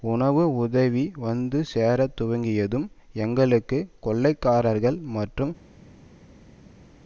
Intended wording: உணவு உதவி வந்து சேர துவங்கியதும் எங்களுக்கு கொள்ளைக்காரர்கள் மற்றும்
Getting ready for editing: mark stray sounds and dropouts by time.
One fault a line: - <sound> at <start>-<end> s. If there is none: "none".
none